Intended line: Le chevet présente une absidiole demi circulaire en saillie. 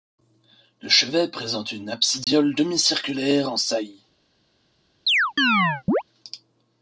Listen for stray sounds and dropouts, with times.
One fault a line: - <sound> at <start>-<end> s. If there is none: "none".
- dropout at 2.2-2.3 s
- chirp at 5.1-6.0 s